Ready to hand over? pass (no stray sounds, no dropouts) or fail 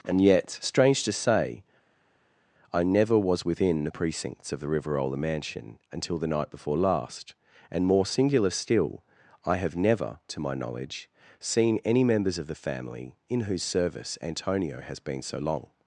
pass